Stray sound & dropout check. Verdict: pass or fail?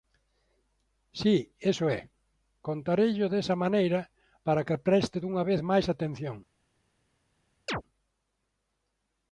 fail